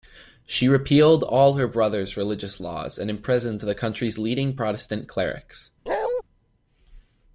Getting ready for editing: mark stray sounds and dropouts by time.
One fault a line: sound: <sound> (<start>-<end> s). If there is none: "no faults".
sound: bark (5.9-6.2 s)